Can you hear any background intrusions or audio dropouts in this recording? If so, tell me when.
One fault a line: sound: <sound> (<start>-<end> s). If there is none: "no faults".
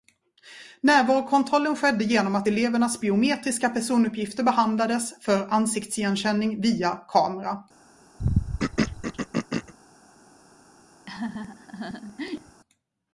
sound: throat clearing (8.2-9.7 s)
sound: laugh (11.1-12.6 s)